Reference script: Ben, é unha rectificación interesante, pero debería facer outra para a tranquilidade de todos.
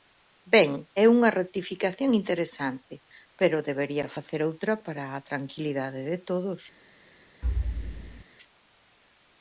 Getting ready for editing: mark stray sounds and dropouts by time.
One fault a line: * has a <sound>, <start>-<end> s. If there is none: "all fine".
* has a thud, 7.4-8.2 s